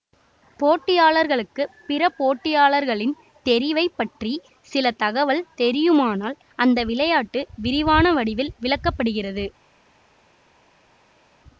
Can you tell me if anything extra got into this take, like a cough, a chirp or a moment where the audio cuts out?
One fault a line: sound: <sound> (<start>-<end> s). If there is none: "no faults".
no faults